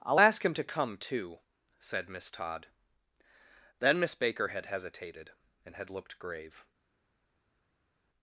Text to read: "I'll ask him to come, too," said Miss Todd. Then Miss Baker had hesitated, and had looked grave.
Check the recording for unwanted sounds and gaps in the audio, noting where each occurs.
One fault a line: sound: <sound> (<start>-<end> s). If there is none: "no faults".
no faults